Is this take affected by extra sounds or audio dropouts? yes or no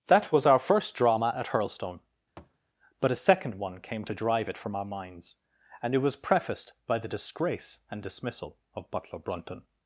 yes